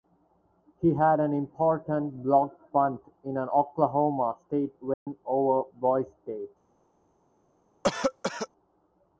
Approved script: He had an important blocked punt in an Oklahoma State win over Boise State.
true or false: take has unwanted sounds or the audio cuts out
true